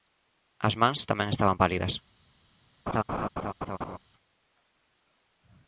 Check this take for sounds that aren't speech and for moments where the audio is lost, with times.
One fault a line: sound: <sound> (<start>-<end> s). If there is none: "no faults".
sound: laugh (2.9-4.0 s)